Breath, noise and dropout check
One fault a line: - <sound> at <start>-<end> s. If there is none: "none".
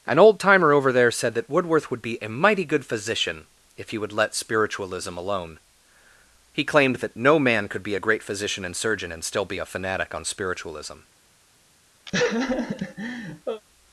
- laugh at 12.1-13.6 s